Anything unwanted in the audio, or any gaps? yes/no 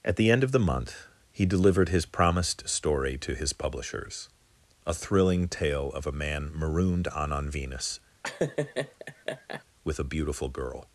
yes